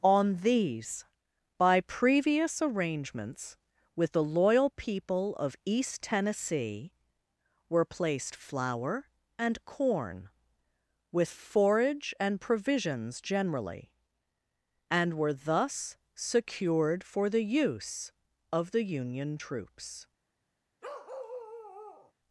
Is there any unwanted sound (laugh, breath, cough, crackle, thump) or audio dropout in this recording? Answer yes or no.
yes